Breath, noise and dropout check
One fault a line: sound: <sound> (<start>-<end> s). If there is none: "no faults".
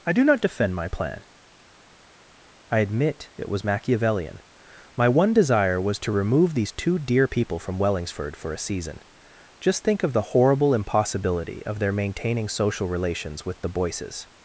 no faults